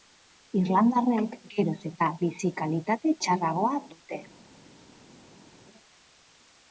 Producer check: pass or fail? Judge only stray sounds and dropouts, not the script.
pass